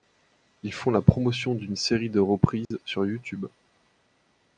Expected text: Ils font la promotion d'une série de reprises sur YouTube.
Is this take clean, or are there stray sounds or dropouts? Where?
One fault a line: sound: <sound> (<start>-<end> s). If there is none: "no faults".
sound: dropout (2.7-2.7 s)